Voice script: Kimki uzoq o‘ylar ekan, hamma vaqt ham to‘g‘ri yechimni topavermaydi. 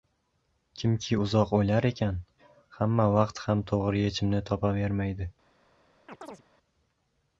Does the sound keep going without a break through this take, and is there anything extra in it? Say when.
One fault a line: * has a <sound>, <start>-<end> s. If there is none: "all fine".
* has a chirp, 6.1-6.4 s